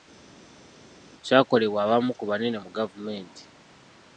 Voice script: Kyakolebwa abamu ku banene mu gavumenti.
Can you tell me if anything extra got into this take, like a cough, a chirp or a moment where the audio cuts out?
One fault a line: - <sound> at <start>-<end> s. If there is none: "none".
none